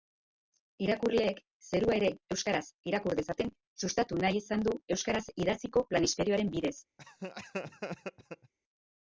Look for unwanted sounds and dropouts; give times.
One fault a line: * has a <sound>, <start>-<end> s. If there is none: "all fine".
* has a laugh, 7.0-8.5 s